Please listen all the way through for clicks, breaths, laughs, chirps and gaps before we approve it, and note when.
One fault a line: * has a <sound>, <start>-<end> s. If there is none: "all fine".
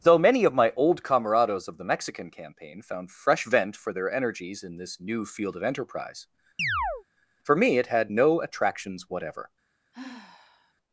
* has a chirp, 6.6-7.0 s
* has a sigh, 9.9-10.7 s